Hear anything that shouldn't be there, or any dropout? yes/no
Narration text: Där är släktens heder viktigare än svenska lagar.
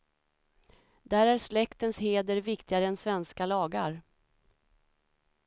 no